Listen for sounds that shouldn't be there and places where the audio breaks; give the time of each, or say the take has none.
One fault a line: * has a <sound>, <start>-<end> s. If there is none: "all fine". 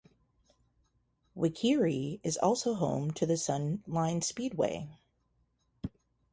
all fine